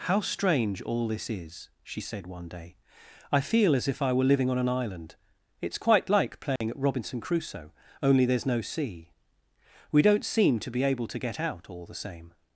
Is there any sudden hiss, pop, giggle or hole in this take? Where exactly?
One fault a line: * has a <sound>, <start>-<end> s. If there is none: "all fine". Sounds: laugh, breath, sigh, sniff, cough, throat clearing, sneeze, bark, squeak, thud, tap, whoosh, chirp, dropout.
* has a dropout, 6.6-6.6 s